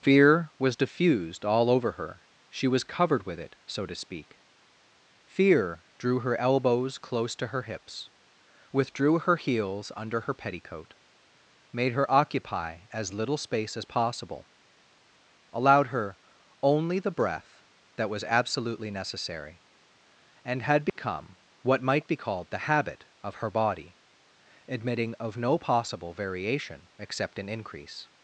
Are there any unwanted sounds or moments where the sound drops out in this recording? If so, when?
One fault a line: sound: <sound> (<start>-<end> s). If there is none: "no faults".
sound: dropout (20.9-21.0 s)